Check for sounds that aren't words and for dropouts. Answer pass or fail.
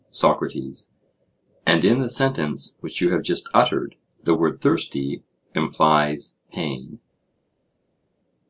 pass